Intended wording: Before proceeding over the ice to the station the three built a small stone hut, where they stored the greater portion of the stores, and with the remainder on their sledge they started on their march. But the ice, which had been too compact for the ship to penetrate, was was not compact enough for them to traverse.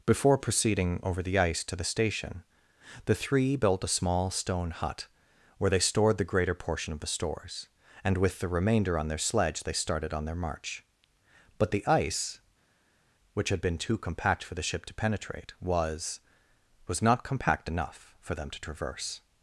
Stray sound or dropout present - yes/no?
no